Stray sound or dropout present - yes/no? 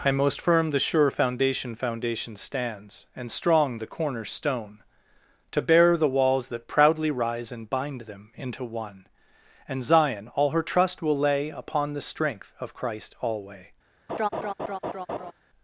yes